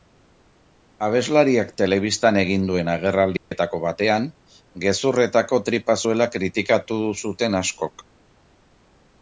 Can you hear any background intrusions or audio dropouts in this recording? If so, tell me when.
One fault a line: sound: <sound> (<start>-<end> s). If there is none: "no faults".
sound: dropout (3.4-3.5 s)